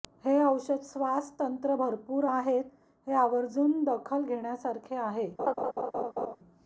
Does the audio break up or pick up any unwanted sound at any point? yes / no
yes